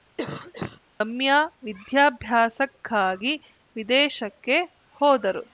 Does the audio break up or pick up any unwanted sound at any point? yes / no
yes